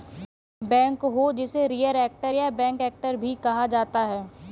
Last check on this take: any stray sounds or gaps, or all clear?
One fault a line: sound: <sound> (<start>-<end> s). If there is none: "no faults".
no faults